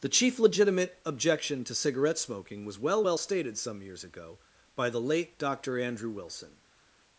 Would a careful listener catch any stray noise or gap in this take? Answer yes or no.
no